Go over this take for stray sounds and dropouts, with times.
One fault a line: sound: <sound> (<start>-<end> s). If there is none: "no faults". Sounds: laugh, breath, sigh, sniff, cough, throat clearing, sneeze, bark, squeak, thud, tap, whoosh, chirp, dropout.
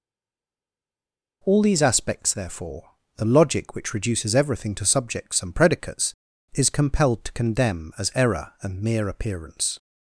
no faults